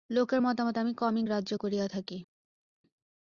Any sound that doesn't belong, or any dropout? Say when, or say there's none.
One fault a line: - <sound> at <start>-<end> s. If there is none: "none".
none